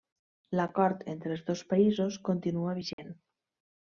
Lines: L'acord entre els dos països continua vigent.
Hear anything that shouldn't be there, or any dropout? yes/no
yes